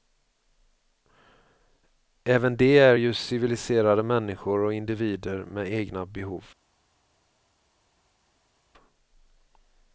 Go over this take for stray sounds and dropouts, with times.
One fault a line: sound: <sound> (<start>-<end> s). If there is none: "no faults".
no faults